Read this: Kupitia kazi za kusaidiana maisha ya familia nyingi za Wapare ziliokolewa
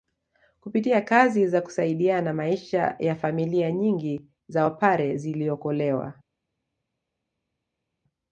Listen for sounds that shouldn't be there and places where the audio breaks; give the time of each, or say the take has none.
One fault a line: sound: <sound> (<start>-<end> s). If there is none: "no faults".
no faults